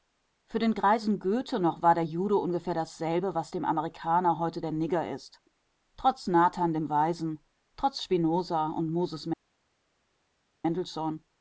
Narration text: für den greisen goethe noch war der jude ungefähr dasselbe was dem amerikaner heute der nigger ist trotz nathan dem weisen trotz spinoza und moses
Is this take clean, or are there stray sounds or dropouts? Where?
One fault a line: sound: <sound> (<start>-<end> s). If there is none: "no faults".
no faults